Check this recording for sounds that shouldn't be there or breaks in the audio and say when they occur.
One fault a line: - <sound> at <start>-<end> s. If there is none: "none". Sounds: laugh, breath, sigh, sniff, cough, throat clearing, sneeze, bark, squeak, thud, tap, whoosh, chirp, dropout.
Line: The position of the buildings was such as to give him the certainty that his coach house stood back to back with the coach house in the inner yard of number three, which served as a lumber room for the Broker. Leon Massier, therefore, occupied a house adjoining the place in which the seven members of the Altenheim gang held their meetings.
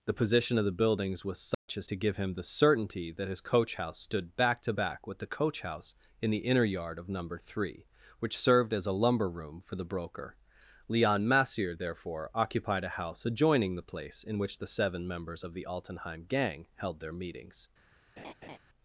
- dropout at 1.5-1.7 s
- laugh at 18.2-18.6 s